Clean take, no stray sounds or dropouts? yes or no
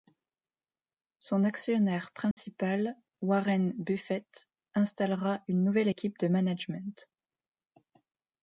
no